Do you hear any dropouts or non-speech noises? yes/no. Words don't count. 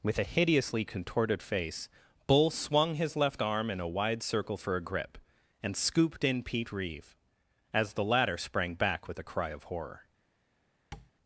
yes